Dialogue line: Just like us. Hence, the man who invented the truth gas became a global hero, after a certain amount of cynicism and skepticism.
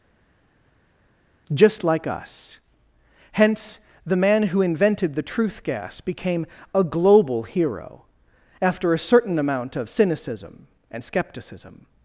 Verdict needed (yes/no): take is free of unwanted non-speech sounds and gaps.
yes